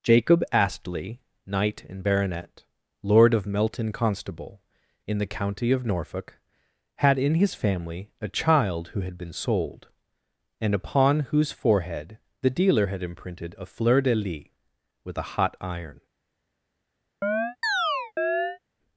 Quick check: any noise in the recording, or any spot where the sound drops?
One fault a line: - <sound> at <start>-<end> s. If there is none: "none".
- chirp at 17.2-18.6 s